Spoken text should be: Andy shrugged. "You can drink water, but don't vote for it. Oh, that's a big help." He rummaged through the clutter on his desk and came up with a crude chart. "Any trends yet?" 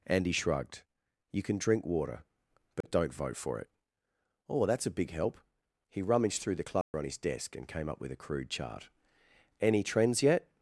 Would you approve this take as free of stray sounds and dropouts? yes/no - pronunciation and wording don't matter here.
no